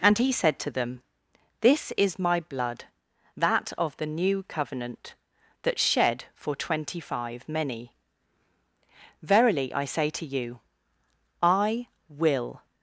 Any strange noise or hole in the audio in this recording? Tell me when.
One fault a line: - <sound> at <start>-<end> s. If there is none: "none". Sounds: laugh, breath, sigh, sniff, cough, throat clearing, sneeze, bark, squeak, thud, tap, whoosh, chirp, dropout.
none